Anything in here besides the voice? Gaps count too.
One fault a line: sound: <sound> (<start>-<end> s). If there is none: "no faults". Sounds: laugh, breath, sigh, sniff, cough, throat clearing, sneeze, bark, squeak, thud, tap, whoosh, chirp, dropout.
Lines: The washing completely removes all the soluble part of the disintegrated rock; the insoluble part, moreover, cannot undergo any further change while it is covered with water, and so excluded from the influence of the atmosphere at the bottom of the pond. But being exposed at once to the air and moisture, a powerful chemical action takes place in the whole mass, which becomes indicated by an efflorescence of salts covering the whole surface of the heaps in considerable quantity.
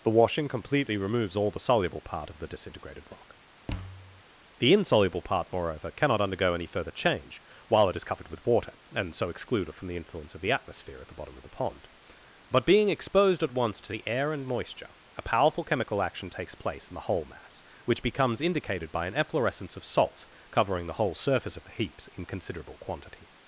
sound: thud (3.7-4.2 s)